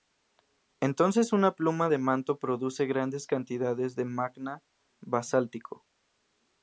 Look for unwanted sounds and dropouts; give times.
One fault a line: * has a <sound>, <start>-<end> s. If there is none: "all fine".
all fine